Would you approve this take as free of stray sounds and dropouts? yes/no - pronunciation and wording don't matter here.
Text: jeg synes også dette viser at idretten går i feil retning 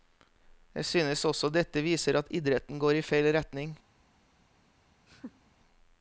no